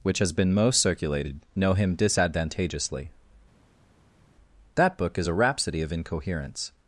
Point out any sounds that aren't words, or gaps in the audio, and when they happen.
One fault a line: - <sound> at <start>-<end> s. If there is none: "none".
none